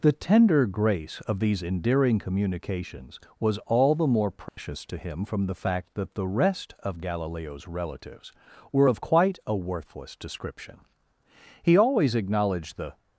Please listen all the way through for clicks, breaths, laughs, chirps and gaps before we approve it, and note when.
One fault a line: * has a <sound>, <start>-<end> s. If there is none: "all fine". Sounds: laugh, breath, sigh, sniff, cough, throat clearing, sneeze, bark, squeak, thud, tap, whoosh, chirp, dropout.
* has a dropout, 4.5-4.6 s